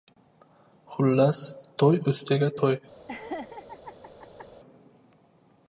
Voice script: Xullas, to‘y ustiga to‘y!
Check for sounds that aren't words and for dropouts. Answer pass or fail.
fail